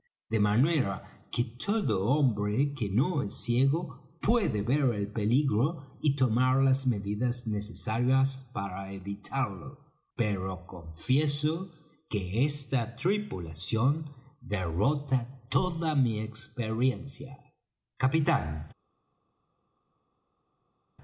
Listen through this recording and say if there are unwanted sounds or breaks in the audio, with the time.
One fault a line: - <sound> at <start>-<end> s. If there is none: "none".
none